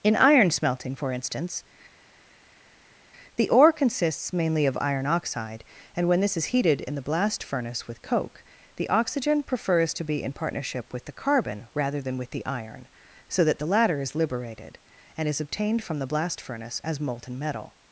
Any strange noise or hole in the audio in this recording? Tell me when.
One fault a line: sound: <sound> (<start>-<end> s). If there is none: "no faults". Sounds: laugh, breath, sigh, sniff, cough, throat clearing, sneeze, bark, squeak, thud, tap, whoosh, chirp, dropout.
no faults